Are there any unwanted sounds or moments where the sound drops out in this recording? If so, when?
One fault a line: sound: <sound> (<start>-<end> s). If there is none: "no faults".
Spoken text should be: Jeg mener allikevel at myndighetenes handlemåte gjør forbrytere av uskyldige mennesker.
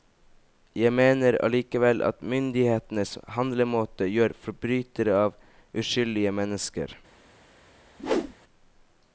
sound: whoosh (8.0-8.3 s)